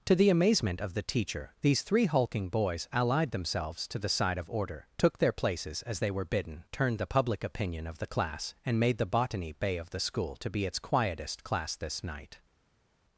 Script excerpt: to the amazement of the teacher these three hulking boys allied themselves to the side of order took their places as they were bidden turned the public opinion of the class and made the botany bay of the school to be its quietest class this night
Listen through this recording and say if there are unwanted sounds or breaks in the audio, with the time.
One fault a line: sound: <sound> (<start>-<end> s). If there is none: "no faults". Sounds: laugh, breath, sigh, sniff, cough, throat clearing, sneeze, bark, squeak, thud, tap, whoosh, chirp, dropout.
no faults